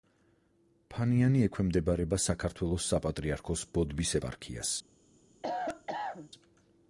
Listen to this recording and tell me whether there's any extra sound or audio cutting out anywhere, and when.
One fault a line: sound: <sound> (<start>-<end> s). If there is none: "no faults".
sound: cough (5.4-6.3 s)